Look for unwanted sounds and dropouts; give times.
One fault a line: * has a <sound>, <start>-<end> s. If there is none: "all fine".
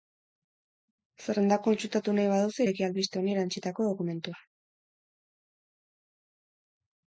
all fine